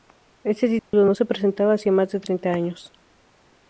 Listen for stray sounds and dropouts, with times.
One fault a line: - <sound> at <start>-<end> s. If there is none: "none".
- dropout at 0.8-0.9 s